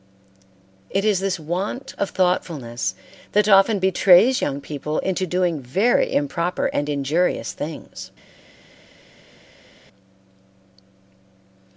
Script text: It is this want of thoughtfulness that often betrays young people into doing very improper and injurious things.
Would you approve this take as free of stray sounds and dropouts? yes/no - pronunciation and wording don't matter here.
yes